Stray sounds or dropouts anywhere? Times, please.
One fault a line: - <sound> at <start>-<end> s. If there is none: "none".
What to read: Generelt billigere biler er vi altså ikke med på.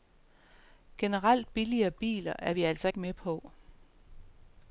none